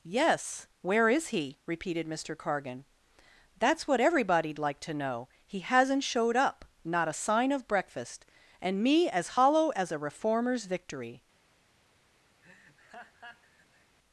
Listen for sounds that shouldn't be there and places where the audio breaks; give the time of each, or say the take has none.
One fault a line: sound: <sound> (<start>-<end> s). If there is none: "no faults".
sound: laugh (12.4-14.0 s)